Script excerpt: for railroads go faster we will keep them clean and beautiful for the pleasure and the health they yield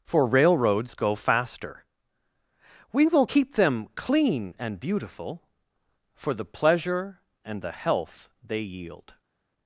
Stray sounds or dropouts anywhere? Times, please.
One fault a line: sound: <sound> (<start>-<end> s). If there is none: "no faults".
no faults